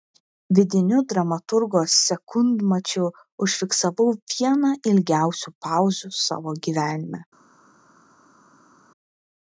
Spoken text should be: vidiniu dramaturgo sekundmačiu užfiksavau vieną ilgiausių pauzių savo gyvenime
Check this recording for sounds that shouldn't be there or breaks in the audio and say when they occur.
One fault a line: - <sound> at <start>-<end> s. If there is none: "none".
none